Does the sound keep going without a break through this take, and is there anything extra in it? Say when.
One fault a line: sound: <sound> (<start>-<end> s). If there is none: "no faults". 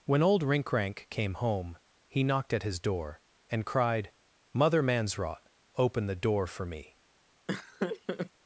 sound: laugh (7.5-8.3 s)